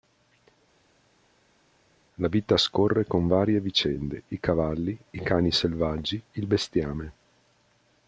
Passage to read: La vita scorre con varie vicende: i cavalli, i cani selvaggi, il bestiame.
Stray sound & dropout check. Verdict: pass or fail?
pass